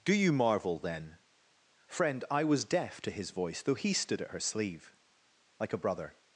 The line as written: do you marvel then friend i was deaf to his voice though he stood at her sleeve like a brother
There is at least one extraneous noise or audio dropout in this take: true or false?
false